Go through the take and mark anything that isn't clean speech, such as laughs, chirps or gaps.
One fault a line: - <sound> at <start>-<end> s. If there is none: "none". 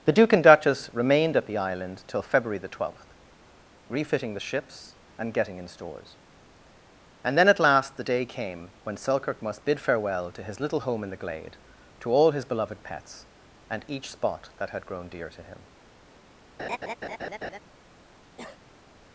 - laugh at 16.6-17.6 s
- cough at 18.4-18.8 s